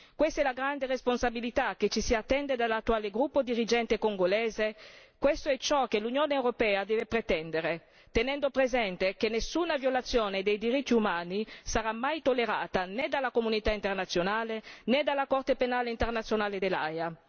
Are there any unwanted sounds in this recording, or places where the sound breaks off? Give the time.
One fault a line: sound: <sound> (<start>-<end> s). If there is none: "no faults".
no faults